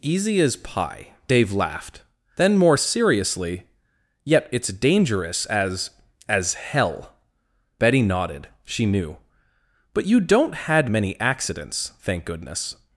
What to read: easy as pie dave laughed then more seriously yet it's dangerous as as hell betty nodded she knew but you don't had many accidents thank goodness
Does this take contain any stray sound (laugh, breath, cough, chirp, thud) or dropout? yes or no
no